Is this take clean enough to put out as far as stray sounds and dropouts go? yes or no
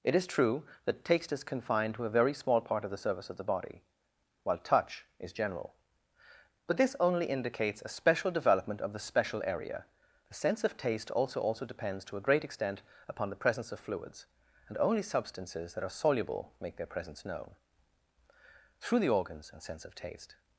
yes